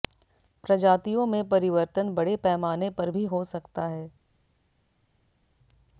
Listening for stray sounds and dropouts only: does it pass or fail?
pass